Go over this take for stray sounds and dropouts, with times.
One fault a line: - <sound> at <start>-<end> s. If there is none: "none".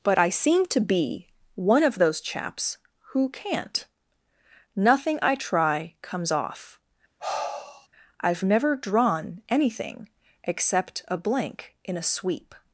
- sigh at 7.2-7.9 s